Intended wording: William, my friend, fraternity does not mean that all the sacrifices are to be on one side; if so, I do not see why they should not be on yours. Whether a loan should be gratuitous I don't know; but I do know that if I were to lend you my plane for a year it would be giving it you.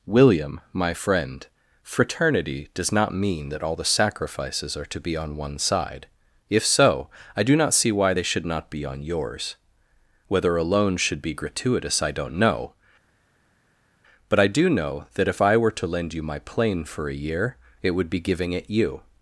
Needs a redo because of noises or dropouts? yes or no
no